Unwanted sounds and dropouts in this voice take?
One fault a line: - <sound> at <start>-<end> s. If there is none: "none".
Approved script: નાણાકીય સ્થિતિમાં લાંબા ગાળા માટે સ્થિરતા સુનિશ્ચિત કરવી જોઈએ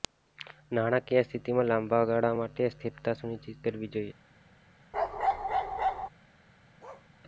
- bark at 4.9-6.1 s
- bark at 6.8-7.1 s